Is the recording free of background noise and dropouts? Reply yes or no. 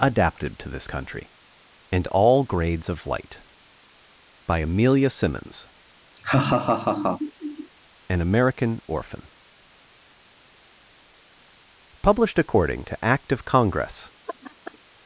no